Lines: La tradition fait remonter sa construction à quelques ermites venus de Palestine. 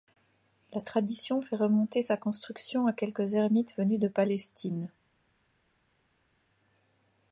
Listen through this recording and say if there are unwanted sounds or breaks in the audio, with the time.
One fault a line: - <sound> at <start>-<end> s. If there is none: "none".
none